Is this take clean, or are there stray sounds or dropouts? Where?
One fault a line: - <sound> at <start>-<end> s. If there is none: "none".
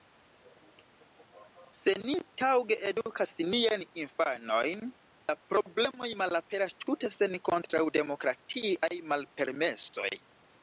- dropout at 9.9-9.9 s